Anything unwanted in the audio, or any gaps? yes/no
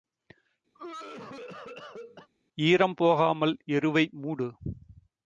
yes